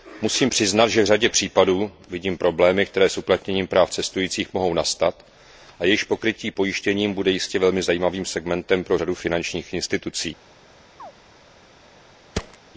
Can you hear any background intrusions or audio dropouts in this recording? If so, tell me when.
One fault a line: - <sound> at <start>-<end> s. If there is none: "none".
- chirp at 11.0-11.1 s
- thud at 12.3-12.6 s